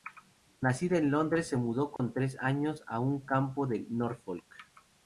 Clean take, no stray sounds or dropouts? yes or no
no